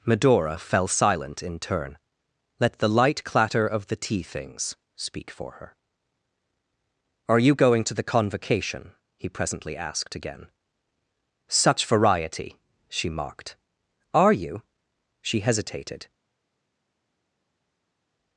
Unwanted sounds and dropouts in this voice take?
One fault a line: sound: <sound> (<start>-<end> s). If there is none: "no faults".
no faults